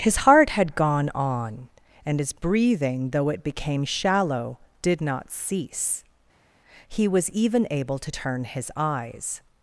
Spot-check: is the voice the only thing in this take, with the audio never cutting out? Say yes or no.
yes